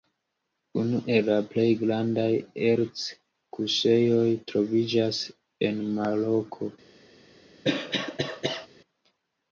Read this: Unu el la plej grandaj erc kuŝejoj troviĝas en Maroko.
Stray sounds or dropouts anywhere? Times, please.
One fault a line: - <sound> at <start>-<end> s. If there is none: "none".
- cough at 7.6-8.7 s